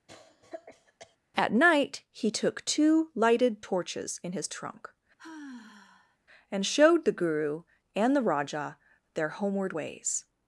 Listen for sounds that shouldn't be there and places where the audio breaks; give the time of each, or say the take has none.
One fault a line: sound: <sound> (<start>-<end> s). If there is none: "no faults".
sound: cough (0.1-1.2 s)
sound: sigh (5.2-6.2 s)